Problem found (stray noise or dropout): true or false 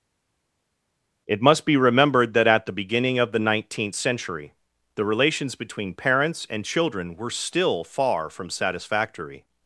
false